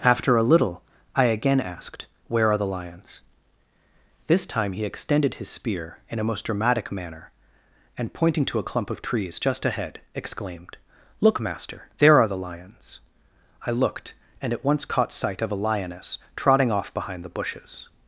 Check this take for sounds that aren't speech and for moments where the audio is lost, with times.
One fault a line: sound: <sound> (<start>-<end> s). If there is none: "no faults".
no faults